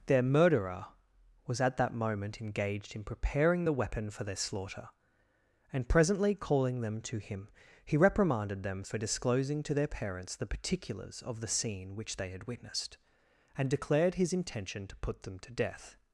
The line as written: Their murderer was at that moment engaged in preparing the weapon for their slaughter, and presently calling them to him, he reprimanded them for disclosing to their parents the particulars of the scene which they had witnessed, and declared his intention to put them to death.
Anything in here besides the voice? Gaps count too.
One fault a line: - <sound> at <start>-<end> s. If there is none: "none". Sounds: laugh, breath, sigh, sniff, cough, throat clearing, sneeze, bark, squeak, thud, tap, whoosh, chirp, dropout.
none